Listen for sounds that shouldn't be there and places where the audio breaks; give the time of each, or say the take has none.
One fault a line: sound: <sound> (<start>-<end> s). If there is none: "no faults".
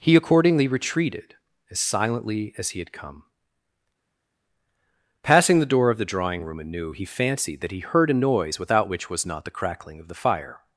no faults